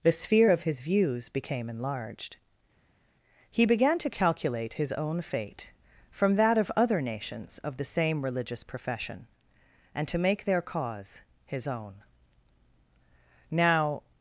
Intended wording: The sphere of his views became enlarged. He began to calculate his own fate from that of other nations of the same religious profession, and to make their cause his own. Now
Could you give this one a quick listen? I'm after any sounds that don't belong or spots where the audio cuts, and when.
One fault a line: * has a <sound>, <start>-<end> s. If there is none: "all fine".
all fine